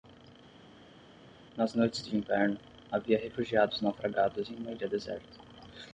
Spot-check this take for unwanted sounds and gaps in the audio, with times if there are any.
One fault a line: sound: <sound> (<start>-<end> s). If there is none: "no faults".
no faults